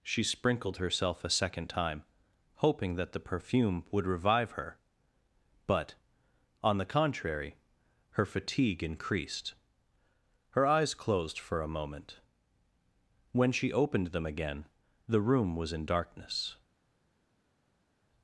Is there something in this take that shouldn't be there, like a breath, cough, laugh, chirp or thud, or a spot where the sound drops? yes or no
no